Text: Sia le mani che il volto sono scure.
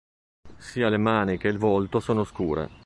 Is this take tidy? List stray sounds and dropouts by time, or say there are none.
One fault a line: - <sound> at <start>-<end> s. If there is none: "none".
none